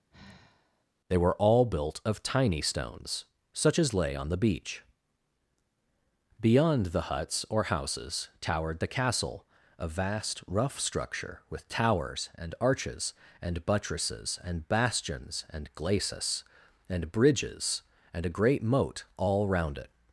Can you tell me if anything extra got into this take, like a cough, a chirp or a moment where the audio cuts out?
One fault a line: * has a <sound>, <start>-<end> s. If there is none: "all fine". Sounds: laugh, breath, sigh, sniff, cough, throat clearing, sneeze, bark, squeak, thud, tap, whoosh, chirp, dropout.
* has a sigh, 0.1-0.9 s